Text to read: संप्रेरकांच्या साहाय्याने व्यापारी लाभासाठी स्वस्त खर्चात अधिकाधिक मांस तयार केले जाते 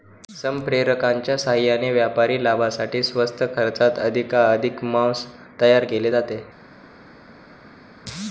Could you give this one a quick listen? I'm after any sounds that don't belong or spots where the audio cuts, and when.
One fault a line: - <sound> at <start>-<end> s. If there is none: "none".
none